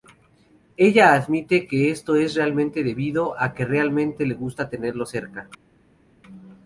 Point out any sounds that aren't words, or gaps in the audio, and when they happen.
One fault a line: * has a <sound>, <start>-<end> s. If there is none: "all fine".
all fine